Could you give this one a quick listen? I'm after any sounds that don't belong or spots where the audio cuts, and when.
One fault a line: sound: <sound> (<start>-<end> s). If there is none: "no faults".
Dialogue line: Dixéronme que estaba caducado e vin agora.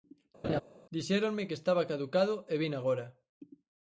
sound: laugh (0.4-0.6 s)